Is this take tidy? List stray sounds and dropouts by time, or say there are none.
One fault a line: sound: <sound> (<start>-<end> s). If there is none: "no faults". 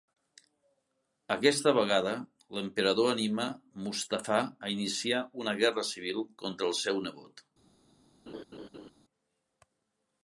sound: laugh (8.3-8.9 s)